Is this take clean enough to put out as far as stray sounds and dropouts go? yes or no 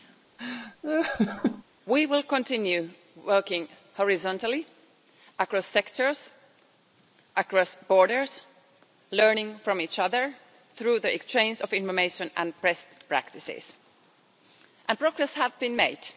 no